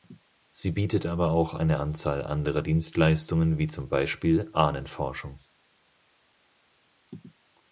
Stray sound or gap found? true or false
false